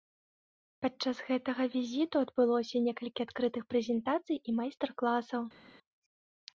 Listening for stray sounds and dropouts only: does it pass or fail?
pass